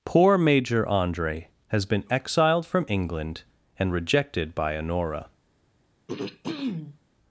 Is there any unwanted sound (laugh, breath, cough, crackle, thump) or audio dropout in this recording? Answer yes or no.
yes